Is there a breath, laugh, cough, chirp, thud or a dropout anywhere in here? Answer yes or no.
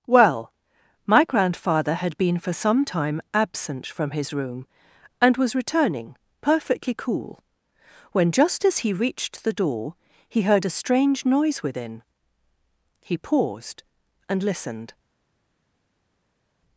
no